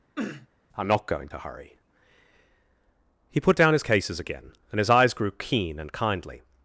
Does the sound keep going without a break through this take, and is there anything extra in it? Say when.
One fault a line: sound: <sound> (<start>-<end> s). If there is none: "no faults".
sound: sniff (0.2-0.5 s)